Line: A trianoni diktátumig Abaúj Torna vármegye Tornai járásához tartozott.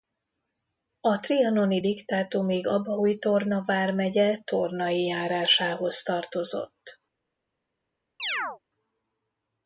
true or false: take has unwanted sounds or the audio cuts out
true